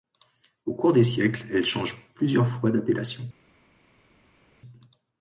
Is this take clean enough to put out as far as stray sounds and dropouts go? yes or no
yes